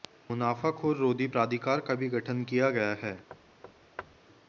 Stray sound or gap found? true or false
true